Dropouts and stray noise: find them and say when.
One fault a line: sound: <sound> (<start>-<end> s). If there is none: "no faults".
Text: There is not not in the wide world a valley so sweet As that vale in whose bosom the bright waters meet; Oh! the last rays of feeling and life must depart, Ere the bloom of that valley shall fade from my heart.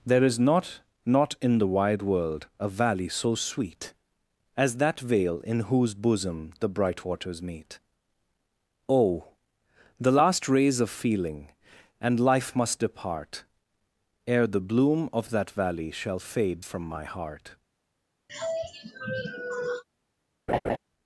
sound: sigh (18.3-19.8 s)
sound: laugh (20.5-20.8 s)